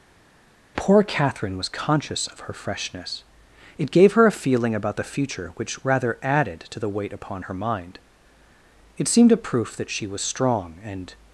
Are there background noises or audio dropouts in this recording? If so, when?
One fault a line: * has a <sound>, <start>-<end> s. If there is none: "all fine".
all fine